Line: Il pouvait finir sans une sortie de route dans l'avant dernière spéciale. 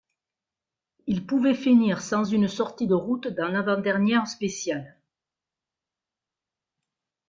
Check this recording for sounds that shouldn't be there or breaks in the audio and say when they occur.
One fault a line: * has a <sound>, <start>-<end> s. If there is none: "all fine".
all fine